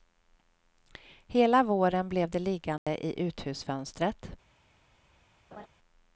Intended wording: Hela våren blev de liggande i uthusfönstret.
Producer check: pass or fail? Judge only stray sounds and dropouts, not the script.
fail